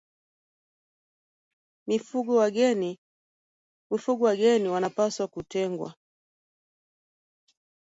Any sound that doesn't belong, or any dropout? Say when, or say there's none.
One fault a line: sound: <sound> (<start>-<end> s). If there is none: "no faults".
no faults